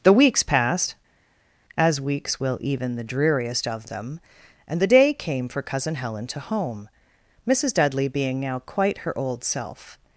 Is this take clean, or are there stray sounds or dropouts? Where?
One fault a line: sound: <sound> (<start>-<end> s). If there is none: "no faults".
no faults